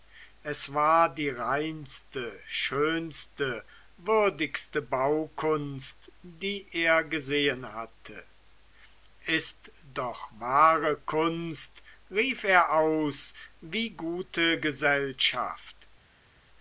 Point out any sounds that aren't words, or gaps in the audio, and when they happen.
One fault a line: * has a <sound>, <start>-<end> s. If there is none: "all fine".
all fine